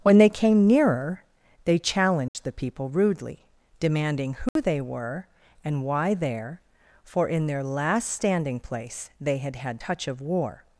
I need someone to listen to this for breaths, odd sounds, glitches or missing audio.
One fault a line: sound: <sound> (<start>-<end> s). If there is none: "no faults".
sound: dropout (2.3-2.3 s)
sound: dropout (4.5-4.6 s)